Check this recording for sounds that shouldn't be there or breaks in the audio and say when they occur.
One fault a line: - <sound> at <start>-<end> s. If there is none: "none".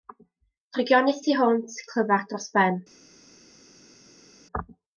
none